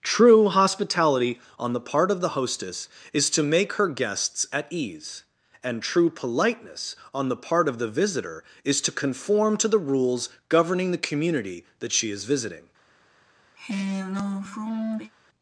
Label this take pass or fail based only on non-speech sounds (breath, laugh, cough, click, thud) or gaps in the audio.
fail